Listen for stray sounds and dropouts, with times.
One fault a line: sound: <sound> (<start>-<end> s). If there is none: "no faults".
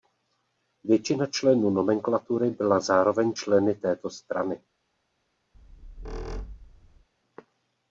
sound: squeak (5.5-7.1 s)